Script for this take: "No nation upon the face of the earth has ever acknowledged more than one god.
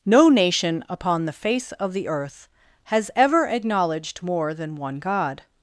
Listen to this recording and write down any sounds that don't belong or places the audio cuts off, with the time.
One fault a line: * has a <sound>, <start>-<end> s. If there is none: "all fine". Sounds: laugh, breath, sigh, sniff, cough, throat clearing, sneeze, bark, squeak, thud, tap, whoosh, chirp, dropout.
all fine